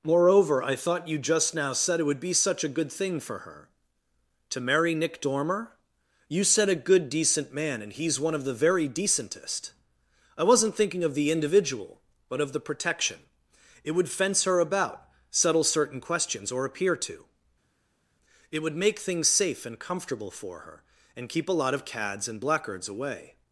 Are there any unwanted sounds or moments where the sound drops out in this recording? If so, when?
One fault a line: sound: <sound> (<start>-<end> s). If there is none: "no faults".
no faults